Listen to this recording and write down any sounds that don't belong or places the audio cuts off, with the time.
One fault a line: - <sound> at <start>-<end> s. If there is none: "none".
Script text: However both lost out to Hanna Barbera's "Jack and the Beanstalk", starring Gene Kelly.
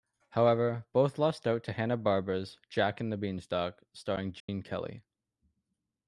- dropout at 4.4-4.5 s